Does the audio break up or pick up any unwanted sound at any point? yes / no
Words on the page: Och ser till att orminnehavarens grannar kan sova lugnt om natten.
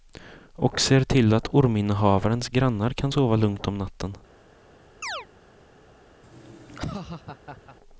yes